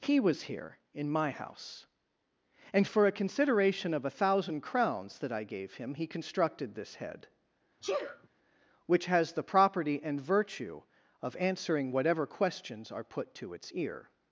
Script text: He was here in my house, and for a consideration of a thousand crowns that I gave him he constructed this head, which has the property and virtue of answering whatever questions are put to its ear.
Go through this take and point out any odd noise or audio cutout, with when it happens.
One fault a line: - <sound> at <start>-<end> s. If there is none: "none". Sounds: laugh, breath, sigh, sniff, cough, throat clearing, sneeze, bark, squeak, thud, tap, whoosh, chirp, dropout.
- sneeze at 7.8-8.3 s